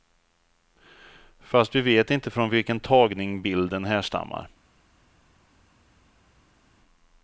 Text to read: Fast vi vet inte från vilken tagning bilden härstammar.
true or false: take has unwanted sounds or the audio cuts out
false